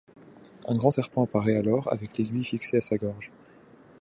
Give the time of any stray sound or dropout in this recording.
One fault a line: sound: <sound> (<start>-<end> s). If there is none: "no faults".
no faults